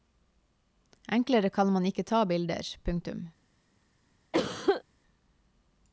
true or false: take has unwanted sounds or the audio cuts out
true